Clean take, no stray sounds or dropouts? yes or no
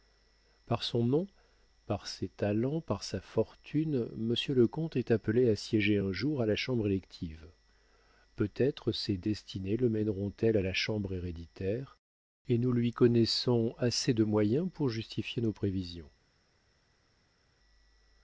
yes